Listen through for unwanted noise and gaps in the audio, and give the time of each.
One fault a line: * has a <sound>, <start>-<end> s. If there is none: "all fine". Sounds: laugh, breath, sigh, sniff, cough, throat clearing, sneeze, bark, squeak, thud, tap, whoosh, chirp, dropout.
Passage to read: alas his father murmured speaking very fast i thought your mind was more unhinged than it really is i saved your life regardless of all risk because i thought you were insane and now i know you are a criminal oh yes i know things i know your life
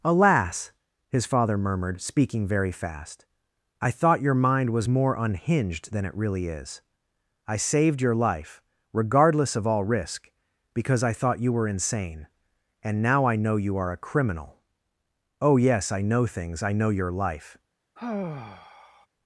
* has a sigh, 18.0-19.1 s